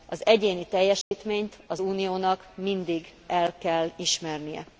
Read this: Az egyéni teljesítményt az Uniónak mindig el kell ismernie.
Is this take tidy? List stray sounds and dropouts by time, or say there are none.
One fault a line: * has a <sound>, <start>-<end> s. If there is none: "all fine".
* has a dropout, 1.0-1.1 s